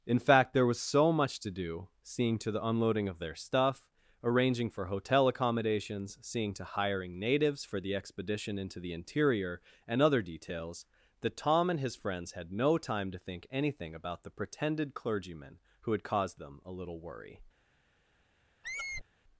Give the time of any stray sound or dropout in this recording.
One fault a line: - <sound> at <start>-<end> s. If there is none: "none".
- squeak at 18.6-19.0 s